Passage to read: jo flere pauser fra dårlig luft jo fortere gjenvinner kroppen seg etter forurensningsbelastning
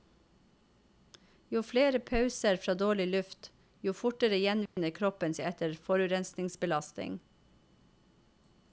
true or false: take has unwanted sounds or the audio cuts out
true